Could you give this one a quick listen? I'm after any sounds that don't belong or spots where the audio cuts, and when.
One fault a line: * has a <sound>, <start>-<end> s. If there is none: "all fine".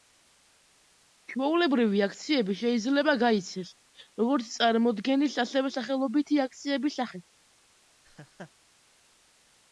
* has a laugh, 8.0-8.5 s